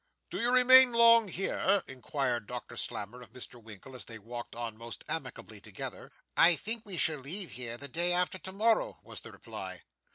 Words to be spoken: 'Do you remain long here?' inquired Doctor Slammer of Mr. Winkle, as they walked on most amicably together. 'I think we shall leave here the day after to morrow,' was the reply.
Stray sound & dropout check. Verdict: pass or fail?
pass